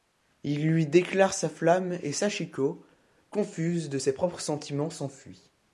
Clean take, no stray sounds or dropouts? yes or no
yes